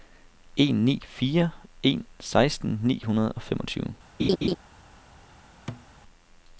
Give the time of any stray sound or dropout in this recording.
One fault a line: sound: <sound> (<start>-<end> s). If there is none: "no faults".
sound: laugh (4.2-4.6 s)
sound: thud (5.7-5.9 s)